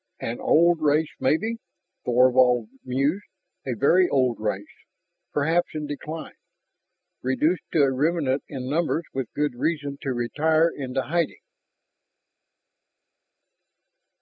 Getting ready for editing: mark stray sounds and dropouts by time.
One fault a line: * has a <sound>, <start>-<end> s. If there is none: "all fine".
all fine